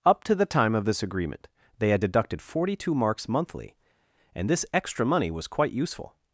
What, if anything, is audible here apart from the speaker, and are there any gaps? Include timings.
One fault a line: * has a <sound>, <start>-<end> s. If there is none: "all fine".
all fine